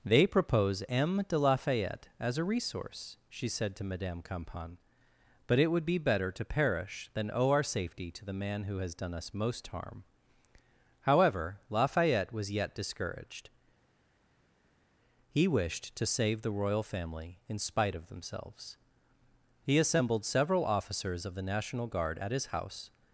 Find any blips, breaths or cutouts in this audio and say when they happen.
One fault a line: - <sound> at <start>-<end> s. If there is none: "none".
none